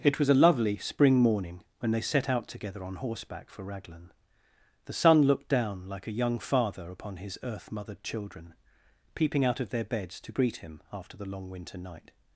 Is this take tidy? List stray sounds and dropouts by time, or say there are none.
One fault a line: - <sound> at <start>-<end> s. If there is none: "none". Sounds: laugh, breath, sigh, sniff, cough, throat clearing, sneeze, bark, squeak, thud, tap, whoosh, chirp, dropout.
none